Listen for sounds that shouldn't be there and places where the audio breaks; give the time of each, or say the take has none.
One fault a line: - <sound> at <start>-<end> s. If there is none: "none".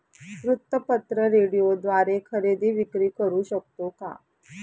none